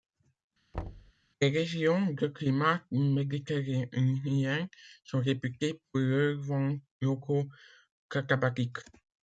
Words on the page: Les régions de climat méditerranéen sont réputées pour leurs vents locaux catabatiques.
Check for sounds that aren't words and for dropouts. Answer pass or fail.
fail